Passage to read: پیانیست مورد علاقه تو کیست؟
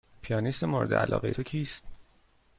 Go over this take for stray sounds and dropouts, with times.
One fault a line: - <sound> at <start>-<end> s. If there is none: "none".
none